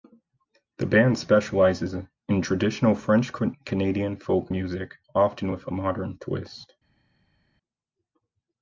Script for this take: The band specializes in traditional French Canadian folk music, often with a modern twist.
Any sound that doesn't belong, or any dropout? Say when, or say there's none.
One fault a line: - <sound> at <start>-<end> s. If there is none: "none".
none